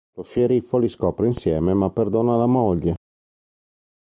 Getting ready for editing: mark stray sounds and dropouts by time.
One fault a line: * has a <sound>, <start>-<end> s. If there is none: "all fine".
all fine